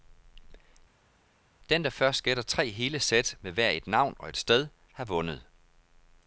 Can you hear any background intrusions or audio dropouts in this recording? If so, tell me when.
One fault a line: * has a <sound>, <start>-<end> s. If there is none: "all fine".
all fine